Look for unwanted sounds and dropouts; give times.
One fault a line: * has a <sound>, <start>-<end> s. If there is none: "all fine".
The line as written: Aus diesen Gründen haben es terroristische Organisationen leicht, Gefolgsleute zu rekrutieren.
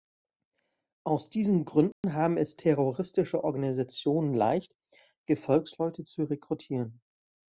* has a dropout, 1.9-2.0 s